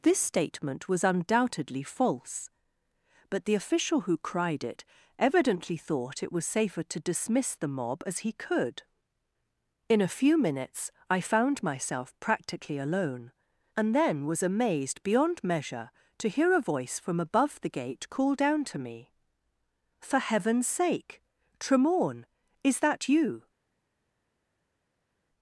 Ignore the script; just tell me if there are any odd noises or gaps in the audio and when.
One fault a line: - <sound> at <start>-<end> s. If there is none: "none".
none